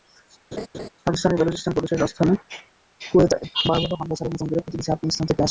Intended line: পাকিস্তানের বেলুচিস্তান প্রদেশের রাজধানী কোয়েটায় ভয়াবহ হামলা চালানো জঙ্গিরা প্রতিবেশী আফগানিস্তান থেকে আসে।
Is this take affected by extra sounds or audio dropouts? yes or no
yes